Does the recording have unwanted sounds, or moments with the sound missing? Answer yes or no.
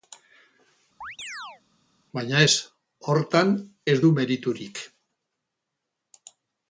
yes